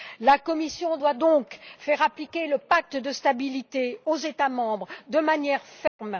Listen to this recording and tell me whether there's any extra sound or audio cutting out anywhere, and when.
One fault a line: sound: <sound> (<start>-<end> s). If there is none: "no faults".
sound: dropout (5.9-6.0 s)